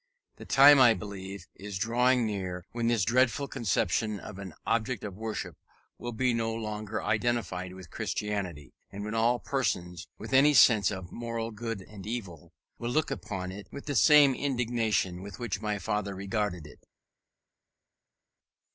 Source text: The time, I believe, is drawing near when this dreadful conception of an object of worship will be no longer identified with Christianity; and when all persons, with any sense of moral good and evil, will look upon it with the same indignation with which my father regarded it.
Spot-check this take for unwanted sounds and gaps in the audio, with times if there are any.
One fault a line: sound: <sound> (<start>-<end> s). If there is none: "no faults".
no faults